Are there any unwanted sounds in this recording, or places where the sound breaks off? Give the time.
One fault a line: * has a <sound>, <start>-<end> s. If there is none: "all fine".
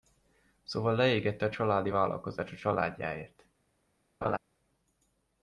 * has a laugh, 4.2-4.4 s